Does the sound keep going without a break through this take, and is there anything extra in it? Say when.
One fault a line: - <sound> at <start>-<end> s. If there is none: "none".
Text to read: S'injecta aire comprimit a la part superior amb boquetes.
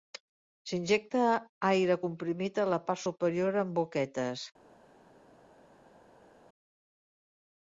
none